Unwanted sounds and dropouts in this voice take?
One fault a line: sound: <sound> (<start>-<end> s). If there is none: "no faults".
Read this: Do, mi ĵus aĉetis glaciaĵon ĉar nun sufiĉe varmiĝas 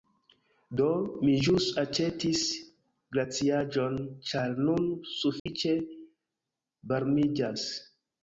sound: dropout (5.4-5.5 s)